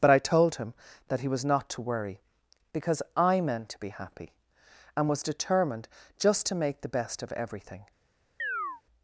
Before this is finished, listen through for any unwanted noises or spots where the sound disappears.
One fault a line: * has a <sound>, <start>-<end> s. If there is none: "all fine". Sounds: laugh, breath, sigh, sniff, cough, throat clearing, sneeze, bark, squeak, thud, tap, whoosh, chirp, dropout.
* has a chirp, 8.4-8.8 s